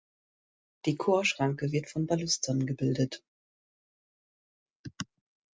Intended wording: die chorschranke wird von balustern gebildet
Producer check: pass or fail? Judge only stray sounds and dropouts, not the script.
pass